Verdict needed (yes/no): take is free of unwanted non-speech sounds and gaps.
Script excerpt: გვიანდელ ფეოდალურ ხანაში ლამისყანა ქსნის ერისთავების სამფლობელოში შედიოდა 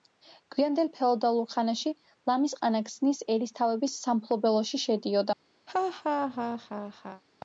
no